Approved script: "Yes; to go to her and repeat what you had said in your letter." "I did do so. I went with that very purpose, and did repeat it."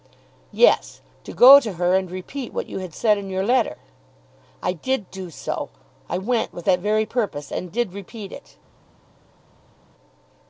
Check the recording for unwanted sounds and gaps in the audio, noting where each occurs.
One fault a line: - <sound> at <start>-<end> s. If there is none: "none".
none